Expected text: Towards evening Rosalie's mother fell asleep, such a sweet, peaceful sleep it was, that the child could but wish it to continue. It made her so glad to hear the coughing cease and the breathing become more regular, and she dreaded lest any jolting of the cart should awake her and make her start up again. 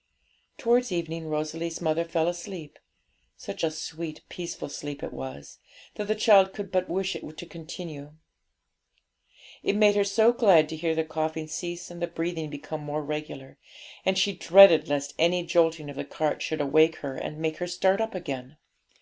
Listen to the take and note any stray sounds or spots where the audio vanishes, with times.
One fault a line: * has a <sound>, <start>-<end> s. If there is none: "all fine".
all fine